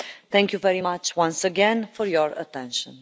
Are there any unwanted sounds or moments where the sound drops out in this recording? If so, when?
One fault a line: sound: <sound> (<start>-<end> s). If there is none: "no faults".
no faults